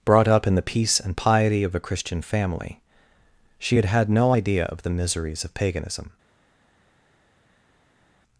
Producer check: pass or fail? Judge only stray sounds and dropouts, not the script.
pass